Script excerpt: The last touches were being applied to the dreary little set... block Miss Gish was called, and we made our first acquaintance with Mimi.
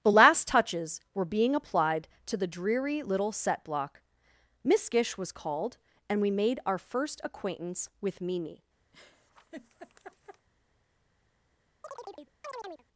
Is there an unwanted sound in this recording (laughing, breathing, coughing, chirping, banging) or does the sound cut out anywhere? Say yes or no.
yes